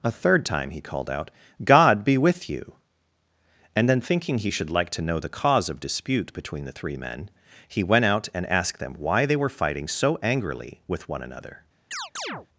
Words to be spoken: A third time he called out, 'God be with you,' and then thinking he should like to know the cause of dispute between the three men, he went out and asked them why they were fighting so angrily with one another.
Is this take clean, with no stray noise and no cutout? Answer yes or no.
no